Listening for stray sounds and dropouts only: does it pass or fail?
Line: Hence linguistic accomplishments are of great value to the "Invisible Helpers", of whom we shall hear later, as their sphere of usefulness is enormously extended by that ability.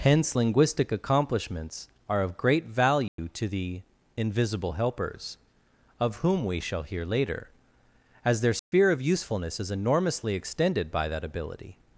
fail